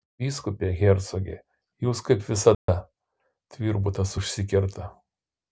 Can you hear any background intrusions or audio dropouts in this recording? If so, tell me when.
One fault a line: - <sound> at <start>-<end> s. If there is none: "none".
- dropout at 2.5-2.7 s